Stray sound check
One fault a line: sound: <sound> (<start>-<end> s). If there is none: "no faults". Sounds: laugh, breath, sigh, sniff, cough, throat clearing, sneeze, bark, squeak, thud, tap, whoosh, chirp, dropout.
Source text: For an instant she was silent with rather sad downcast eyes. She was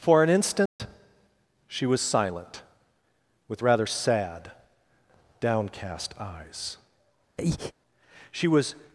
sound: dropout (0.7-0.8 s)
sound: breath (7.4-7.7 s)